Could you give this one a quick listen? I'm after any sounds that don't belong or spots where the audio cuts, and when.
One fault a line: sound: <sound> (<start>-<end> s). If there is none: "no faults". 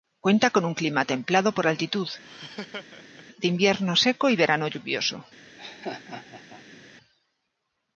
sound: laugh (2.2-3.3 s)
sound: laugh (5.6-6.8 s)